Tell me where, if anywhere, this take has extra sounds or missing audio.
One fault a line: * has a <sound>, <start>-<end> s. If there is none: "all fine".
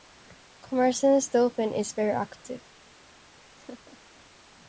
* has a laugh, 3.5-4.0 s